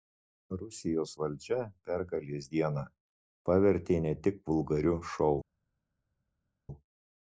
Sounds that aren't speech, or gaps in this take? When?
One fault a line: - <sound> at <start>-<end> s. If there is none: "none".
none